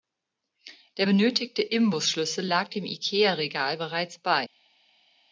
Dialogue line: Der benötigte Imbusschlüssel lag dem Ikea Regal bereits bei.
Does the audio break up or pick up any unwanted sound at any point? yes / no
no